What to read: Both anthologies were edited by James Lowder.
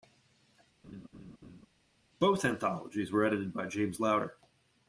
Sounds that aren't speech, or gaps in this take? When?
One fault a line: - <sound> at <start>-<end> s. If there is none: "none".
- laugh at 0.8-1.7 s